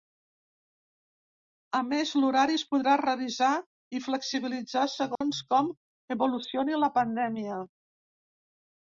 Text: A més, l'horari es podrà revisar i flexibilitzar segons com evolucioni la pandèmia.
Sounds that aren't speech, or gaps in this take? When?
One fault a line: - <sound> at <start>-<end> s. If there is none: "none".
- dropout at 5.2-5.2 s